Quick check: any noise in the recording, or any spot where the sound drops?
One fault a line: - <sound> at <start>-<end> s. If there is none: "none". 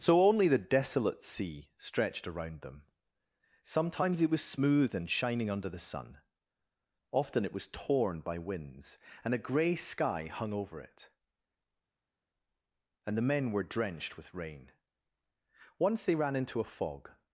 none